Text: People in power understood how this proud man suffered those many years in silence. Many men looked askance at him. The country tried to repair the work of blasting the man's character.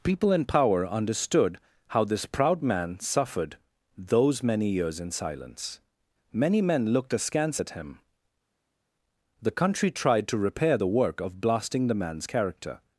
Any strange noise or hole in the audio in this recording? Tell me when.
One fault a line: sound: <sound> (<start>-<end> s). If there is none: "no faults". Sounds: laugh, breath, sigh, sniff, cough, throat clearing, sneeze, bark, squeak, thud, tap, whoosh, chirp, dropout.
no faults